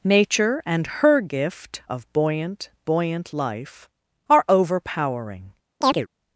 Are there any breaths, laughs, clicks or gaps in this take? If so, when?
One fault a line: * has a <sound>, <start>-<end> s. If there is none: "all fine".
* has a chirp, 5.8-6.1 s